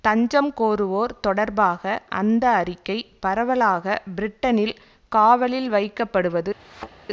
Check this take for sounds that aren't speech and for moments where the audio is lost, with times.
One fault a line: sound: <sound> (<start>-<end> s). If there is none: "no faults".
sound: thud (6.6-6.9 s)